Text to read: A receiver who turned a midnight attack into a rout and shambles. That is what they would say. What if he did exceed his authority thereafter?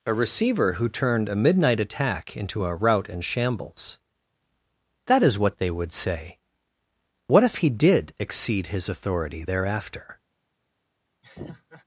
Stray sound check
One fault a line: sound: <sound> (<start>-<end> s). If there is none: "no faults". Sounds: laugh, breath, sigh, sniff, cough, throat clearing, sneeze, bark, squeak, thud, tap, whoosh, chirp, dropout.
sound: laugh (11.2-11.8 s)